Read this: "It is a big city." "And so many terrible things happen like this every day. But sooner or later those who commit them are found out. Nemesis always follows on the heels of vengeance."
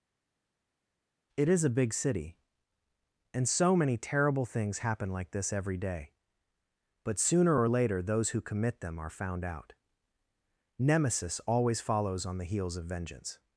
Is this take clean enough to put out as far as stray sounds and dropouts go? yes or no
yes